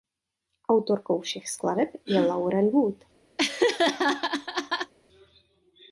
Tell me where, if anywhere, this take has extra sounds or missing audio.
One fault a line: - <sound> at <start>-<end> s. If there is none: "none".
- laugh at 3.4-4.9 s